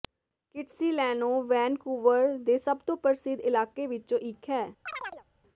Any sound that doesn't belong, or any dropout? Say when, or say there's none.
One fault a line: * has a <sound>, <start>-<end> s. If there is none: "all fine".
* has a chirp, 4.9-5.2 s